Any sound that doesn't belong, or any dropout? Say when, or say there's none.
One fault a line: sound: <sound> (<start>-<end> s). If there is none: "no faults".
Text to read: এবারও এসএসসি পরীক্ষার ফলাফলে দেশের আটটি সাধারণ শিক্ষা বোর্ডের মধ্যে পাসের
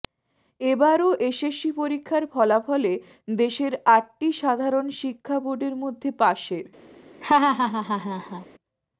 sound: laugh (7.2-8.5 s)